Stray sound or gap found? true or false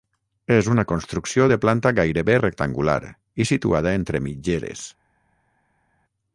false